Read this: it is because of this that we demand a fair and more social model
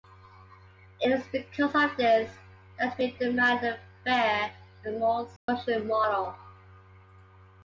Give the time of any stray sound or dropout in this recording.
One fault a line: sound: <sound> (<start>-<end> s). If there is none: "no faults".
sound: dropout (5.4-5.5 s)